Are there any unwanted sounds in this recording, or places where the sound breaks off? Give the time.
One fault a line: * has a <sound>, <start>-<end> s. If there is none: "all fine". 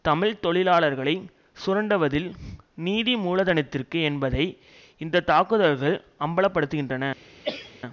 * has a cough, 7.4-7.8 s